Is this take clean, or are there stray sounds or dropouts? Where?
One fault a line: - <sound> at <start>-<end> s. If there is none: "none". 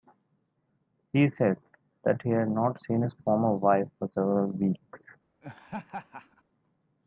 - laugh at 5.4-6.4 s